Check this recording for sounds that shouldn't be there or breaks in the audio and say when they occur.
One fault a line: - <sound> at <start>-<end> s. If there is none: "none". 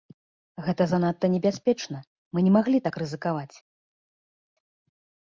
none